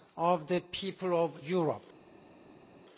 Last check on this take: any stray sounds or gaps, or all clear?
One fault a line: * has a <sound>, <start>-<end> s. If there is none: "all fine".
all fine